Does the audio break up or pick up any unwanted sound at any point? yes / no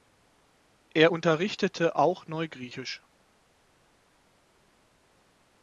no